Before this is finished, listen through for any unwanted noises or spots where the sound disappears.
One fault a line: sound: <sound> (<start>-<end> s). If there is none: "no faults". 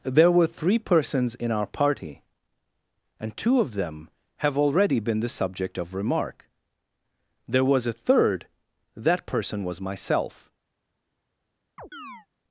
sound: chirp (11.8-12.3 s)